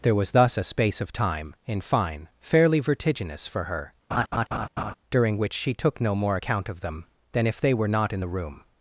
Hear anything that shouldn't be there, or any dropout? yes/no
yes